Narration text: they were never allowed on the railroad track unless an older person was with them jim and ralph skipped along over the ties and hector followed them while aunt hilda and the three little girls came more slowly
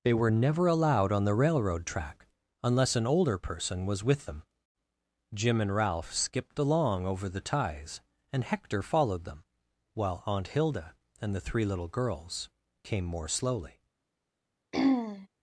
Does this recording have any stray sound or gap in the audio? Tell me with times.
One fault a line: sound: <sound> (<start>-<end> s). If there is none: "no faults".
sound: throat clearing (14.7-15.3 s)